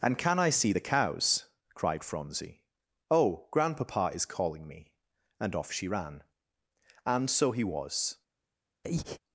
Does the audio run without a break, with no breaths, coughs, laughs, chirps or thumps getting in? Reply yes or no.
no